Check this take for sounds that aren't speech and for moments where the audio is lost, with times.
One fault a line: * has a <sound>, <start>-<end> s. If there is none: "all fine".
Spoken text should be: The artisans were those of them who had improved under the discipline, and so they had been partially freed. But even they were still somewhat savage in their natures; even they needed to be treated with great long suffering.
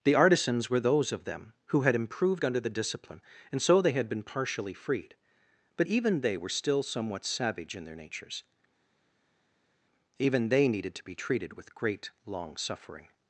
all fine